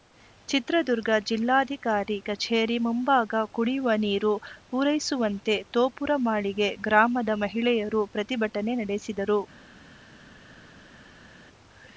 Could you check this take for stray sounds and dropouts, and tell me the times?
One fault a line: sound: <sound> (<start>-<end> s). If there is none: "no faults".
no faults